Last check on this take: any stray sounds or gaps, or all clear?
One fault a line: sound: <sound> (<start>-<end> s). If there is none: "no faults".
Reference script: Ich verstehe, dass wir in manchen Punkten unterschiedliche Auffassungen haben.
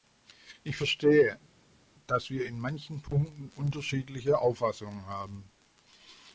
no faults